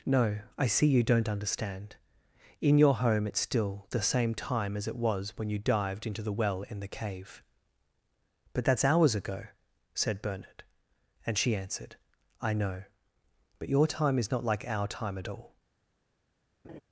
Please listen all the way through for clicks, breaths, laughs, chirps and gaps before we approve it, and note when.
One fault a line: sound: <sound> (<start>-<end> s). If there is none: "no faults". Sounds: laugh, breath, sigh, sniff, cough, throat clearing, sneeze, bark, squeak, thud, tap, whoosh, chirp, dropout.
sound: laugh (16.6-16.8 s)